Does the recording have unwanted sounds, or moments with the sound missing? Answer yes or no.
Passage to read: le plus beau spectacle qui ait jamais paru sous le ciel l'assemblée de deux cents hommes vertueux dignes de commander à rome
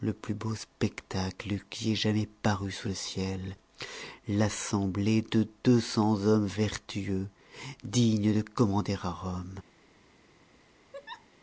yes